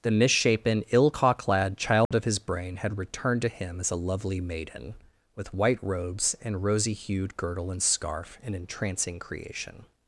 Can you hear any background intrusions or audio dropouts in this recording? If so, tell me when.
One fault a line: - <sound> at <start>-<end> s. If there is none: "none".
- dropout at 2.0-2.1 s